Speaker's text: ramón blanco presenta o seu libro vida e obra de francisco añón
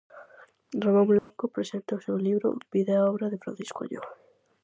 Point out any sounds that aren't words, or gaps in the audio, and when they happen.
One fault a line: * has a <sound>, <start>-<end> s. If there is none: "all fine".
* has a dropout, 1.2-1.3 s